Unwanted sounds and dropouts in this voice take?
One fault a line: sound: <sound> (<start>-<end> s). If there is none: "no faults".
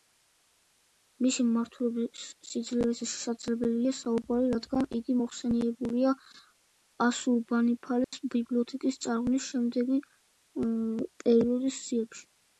sound: dropout (8.0-8.1 s)